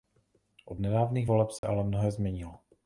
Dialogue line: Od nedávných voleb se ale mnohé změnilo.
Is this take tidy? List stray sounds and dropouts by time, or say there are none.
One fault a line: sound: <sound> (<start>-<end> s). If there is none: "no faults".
sound: dropout (1.6-1.6 s)